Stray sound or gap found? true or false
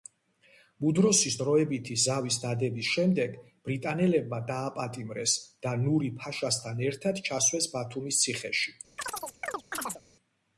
true